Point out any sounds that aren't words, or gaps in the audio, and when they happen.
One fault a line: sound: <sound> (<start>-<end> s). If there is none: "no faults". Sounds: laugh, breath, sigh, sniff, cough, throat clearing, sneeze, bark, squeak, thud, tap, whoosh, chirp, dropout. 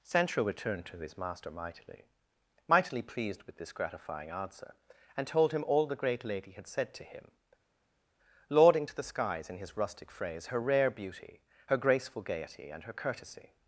no faults